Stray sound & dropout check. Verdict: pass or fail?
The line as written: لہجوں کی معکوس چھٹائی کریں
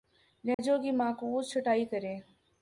fail